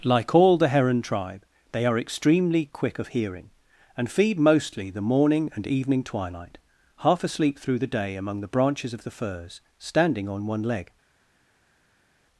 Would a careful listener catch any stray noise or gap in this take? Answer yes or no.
no